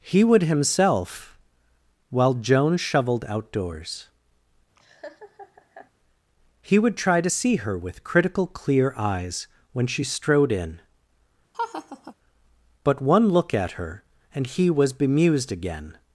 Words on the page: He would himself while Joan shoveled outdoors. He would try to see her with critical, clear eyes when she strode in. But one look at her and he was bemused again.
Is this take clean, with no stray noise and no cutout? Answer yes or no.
no